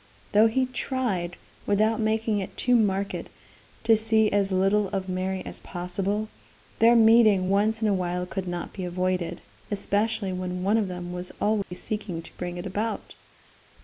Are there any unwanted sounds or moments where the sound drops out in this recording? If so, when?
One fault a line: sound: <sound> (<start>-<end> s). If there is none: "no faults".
sound: dropout (11.6-11.7 s)